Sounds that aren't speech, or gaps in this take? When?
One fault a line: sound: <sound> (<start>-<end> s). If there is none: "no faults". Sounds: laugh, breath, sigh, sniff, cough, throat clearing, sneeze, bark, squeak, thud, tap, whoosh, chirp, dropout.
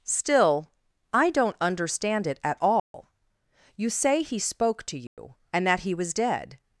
sound: dropout (2.8-2.9 s)
sound: dropout (5.1-5.2 s)